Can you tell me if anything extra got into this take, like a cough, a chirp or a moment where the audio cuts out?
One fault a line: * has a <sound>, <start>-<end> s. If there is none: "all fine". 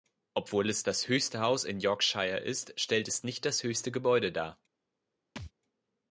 * has a thud, 5.4-5.5 s